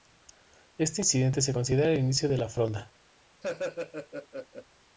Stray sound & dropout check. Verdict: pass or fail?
fail